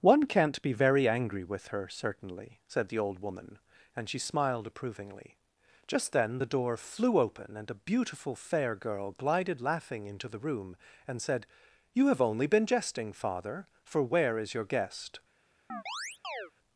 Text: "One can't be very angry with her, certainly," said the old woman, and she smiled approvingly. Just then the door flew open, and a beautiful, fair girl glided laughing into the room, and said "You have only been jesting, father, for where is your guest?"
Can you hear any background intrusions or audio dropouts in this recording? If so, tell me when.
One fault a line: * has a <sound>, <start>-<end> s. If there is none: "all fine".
* has a chirp, 15.7-16.5 s